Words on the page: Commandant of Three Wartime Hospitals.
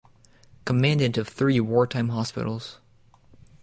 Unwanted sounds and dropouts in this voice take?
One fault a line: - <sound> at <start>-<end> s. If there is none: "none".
none